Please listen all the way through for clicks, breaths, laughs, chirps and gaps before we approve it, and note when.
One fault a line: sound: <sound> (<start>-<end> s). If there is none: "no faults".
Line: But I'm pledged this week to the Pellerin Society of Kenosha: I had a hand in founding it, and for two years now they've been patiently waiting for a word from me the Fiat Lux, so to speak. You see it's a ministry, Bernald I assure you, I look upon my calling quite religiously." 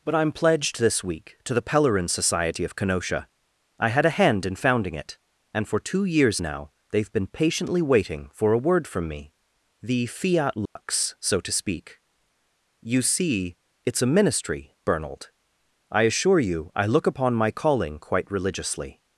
sound: dropout (10.7-10.8 s)